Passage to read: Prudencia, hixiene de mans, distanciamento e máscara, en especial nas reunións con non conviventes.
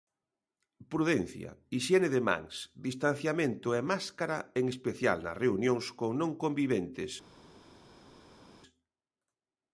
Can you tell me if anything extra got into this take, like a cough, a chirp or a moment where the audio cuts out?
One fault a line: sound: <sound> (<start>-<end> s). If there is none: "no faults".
no faults